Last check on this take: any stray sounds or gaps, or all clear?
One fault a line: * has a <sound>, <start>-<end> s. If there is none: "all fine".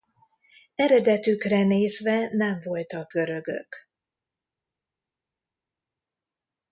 all fine